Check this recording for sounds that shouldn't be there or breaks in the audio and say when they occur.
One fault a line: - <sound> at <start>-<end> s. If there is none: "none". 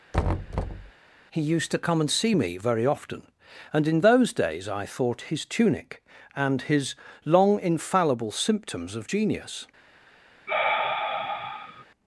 - thud at 0.1-0.9 s
- sigh at 10.5-11.9 s